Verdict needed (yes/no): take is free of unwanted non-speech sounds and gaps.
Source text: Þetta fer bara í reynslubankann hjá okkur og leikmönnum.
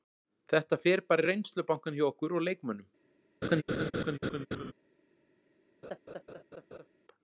no